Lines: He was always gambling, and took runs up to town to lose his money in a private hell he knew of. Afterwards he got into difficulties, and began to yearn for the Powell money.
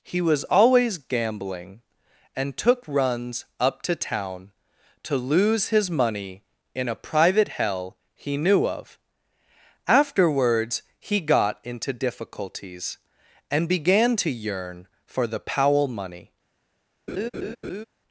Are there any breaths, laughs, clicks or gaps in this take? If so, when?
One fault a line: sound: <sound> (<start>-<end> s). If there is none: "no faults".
sound: laugh (17.1-17.8 s)